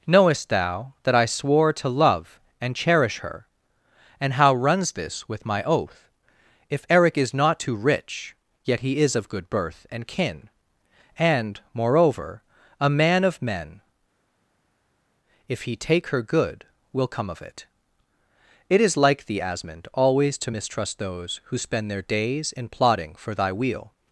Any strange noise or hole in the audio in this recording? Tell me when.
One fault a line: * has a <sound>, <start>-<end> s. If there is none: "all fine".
all fine